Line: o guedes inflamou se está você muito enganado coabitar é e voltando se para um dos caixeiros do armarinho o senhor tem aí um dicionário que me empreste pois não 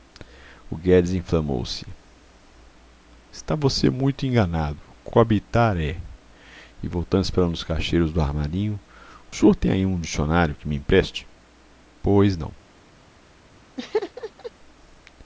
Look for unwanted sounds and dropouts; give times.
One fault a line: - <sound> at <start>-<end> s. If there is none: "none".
- laugh at 13.8-14.5 s